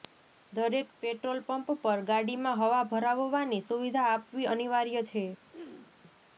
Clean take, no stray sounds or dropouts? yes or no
no